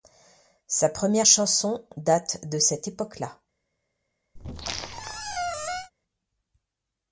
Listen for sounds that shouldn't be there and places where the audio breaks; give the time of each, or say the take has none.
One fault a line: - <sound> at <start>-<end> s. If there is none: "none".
- squeak at 4.4-5.9 s